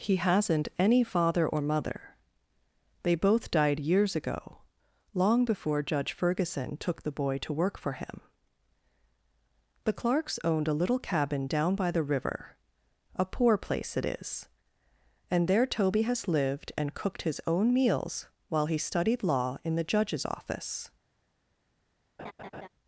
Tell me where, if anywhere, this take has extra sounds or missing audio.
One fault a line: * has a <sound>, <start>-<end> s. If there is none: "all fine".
* has a laugh, 22.2-22.7 s